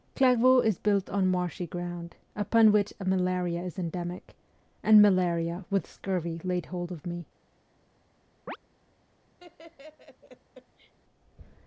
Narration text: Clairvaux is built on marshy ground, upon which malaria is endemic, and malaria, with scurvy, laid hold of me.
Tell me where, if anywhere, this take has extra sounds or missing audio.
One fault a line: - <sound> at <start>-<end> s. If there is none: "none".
- chirp at 8.5-8.6 s
- laugh at 9.4-10.9 s